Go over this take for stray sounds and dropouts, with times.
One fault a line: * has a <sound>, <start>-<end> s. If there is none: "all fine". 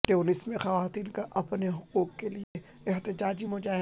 * has a dropout, 2.4-2.5 s